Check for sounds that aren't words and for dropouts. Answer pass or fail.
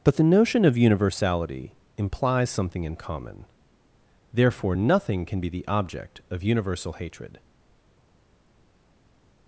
pass